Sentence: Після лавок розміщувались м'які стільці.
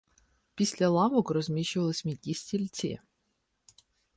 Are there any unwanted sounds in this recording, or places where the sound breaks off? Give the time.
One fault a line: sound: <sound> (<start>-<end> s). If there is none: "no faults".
no faults